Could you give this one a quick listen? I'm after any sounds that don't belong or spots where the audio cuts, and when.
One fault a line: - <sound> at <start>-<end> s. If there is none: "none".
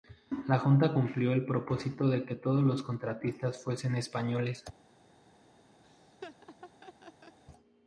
- laugh at 5.8-7.4 s